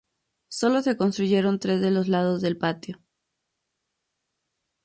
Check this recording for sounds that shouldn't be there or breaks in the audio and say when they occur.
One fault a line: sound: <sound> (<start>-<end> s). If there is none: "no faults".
no faults